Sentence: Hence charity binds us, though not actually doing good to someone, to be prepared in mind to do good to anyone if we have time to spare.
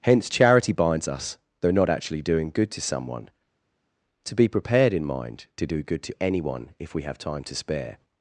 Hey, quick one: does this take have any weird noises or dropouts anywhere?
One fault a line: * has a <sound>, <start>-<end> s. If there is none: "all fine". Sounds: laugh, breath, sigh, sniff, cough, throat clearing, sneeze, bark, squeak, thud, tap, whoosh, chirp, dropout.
all fine